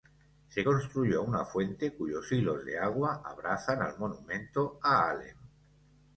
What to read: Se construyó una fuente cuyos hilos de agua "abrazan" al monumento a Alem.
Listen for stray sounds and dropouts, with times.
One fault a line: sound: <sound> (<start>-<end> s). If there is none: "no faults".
no faults